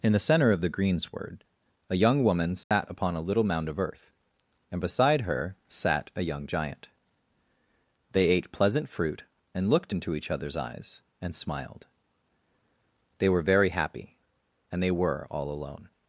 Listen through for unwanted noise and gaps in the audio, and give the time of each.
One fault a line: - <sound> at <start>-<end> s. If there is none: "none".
- dropout at 2.6-2.7 s